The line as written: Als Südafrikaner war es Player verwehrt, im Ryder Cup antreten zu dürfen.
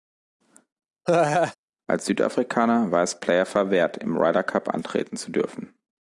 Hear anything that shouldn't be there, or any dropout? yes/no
yes